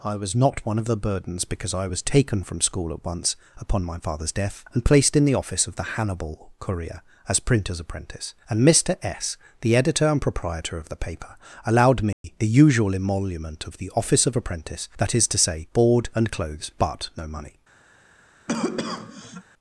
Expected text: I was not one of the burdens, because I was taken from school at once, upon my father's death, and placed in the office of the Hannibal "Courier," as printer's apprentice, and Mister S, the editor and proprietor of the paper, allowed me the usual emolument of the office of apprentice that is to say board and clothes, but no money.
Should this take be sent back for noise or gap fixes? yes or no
yes